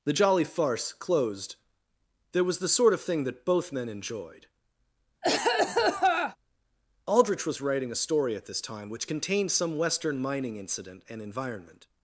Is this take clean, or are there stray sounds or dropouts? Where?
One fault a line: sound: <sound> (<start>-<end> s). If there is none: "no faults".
sound: cough (5.2-6.4 s)